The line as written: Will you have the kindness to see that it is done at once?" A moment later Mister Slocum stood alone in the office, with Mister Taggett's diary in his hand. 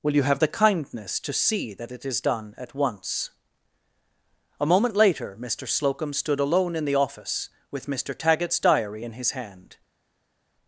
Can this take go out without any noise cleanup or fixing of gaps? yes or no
yes